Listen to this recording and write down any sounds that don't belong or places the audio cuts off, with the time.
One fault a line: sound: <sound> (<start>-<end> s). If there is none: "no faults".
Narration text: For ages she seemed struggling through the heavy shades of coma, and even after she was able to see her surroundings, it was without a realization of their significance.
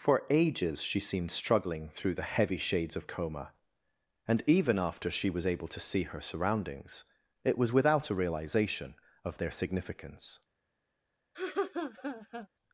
sound: laugh (11.3-12.5 s)